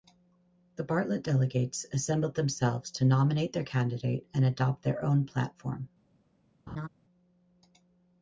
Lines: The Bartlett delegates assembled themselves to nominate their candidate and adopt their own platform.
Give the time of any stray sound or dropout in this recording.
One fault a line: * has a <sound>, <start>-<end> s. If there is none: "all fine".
* has a laugh, 6.7-6.9 s